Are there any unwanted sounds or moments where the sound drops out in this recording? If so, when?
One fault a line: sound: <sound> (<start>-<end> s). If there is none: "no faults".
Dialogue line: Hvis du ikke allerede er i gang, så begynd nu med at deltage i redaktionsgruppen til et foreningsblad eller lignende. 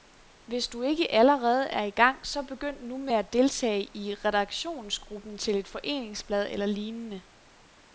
no faults